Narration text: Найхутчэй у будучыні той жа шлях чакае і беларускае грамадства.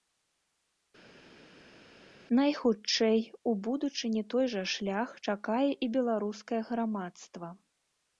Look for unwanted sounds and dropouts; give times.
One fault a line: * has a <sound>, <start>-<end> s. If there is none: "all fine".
all fine